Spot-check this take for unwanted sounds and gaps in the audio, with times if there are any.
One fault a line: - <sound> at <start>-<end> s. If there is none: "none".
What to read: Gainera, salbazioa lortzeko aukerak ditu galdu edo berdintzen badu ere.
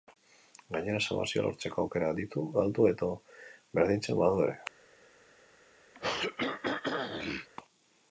- throat clearing at 5.9-7.5 s